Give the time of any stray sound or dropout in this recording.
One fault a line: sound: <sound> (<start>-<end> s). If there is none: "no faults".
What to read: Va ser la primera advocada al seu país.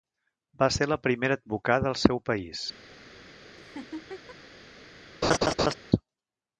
sound: laugh (3.6-4.4 s)
sound: laugh (5.2-5.7 s)